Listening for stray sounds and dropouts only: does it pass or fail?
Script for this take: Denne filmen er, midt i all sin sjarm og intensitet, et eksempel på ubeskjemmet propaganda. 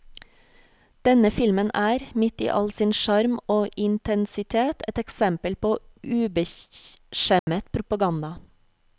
fail